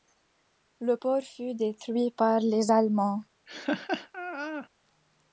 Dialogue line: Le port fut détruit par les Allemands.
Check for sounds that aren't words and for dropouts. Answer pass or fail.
fail